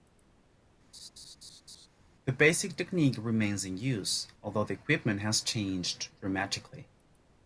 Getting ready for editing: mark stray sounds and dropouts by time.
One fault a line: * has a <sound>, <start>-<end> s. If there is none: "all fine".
* has a laugh, 0.9-1.9 s